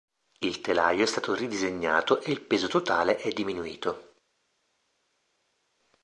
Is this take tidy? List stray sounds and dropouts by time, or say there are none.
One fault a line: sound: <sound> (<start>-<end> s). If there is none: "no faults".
no faults